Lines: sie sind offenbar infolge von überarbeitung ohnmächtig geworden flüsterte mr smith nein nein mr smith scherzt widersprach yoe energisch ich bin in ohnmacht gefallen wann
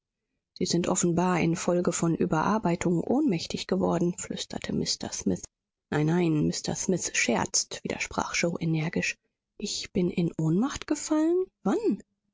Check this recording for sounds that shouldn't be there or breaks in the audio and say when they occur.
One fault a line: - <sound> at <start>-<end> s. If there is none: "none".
none